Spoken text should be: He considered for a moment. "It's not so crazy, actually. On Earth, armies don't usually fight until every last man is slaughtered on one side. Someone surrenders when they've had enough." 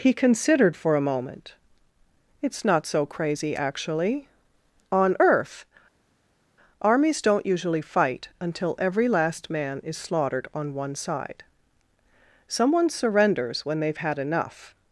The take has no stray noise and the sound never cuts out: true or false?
true